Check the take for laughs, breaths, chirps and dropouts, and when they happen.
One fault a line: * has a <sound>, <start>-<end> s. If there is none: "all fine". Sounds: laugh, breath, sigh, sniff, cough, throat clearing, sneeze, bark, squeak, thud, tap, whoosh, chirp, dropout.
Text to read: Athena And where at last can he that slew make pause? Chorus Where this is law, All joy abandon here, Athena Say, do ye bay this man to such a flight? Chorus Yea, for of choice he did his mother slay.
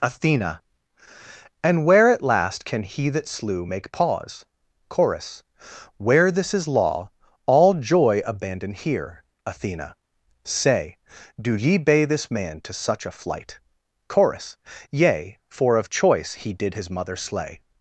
all fine